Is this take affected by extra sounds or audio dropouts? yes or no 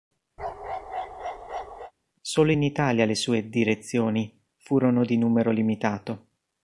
yes